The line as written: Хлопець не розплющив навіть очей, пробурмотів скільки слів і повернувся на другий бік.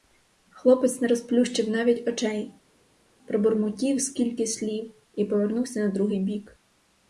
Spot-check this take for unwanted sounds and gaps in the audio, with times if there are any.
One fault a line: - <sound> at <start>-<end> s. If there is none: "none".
none